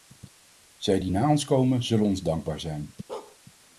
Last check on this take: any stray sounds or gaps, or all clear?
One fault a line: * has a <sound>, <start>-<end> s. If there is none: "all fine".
* has a bark, 3.1-3.4 s